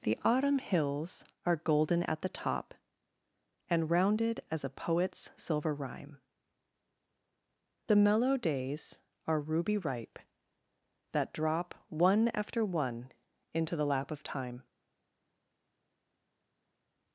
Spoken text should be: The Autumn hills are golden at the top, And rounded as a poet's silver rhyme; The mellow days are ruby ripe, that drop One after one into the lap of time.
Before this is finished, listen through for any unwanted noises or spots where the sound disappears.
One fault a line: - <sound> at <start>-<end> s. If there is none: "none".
none